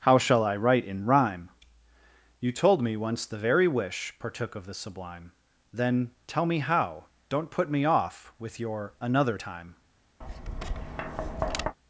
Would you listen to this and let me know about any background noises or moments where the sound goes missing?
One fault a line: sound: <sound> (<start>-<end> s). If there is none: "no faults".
sound: tap (10.2-11.8 s)